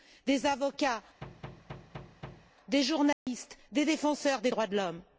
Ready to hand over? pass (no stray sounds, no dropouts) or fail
fail